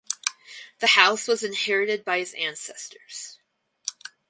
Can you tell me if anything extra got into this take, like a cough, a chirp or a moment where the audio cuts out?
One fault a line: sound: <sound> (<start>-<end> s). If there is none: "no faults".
no faults